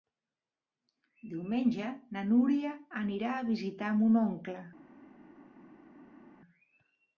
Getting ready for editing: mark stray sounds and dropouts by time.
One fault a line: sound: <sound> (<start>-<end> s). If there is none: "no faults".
no faults